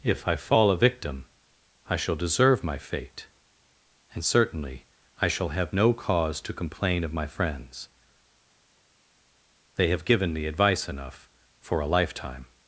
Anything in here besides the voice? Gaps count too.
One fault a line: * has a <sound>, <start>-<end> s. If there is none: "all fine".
all fine